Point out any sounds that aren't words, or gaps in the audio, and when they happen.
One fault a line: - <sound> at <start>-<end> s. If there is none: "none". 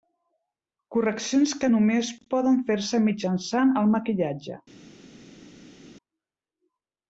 none